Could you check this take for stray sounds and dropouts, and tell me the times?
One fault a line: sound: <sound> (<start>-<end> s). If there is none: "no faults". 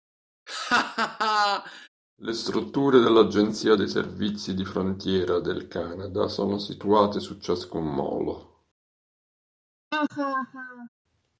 sound: laugh (0.5-1.9 s)
sound: laugh (9.9-10.9 s)